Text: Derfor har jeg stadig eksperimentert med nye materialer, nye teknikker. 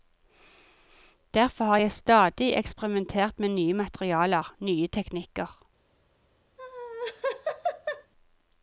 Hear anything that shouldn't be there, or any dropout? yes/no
yes